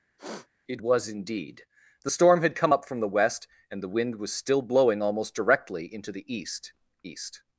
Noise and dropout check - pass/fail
fail